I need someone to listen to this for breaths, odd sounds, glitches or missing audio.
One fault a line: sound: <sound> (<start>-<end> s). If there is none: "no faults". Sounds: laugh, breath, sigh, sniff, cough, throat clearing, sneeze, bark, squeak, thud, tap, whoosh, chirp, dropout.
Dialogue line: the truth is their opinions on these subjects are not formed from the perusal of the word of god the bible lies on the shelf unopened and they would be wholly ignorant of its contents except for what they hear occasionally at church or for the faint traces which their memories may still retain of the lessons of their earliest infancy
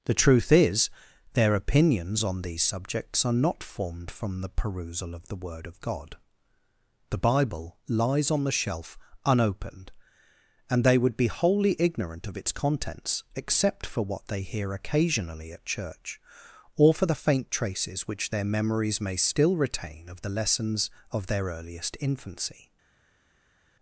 no faults